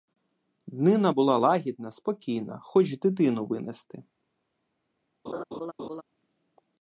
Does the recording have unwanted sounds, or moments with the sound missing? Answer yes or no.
yes